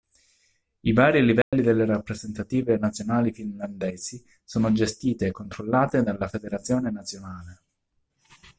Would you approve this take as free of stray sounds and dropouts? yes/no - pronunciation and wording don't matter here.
no